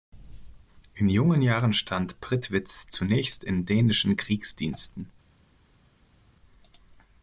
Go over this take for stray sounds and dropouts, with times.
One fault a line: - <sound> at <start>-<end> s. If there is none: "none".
none